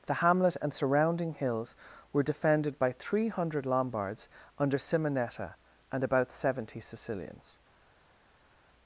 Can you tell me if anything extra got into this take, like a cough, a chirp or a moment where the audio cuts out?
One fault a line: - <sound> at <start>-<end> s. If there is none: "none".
none